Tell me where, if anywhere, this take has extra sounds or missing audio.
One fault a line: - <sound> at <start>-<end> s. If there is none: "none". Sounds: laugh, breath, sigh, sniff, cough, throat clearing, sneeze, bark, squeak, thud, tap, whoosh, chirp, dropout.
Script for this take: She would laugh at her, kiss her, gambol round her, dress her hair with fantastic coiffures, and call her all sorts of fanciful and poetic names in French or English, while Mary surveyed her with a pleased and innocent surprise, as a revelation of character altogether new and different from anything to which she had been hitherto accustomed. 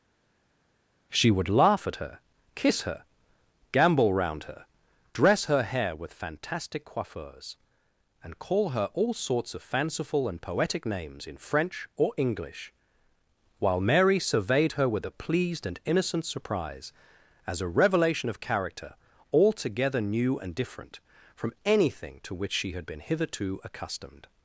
none